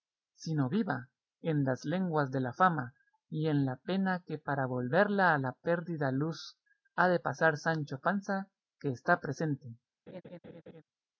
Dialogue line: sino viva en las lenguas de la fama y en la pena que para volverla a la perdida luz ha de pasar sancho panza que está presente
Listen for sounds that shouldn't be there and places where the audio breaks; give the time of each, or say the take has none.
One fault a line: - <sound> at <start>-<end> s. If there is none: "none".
- laugh at 10.1-10.8 s